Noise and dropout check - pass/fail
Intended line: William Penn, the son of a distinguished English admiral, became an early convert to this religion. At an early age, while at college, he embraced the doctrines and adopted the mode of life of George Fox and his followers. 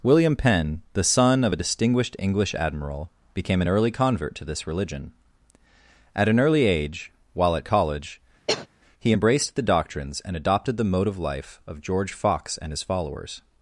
fail